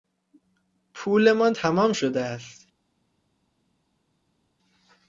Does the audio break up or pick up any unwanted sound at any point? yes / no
no